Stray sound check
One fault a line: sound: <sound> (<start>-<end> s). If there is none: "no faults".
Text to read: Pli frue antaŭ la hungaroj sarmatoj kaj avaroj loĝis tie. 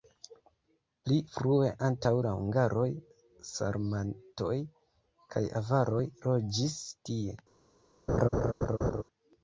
sound: laugh (8.1-9.0 s)